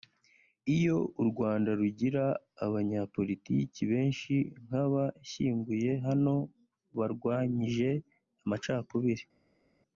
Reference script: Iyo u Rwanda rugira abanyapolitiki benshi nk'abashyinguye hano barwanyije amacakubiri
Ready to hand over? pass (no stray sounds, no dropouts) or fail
pass